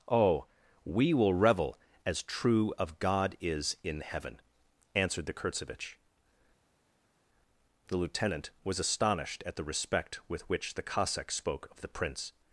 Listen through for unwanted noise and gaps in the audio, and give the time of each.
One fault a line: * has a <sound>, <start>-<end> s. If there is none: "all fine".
all fine